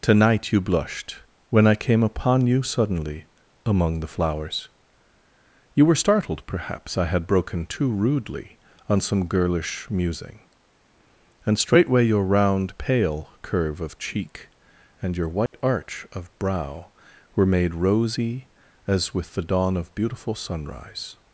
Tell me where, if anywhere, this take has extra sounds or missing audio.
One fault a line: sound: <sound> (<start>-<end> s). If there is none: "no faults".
sound: dropout (15.5-15.5 s)